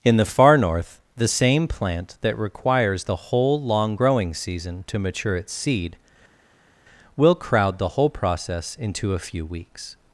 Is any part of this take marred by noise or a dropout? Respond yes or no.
no